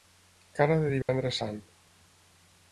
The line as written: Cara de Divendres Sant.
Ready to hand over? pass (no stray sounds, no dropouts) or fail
fail